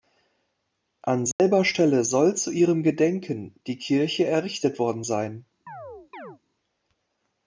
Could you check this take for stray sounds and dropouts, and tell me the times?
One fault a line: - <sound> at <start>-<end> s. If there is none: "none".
- dropout at 1.3-1.4 s
- chirp at 5.7-6.4 s